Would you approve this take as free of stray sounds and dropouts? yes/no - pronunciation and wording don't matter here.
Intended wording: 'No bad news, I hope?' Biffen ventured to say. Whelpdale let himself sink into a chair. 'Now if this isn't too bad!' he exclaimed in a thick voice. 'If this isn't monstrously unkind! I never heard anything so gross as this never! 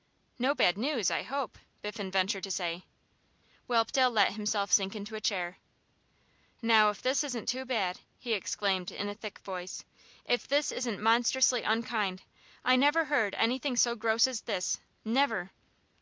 yes